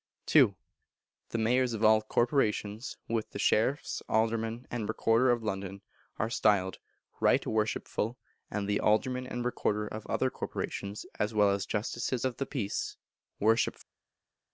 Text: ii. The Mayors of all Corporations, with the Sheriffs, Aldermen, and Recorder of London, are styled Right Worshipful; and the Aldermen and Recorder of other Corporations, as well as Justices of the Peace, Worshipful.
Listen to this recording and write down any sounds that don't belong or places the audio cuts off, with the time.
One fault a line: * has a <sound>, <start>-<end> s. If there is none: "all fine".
all fine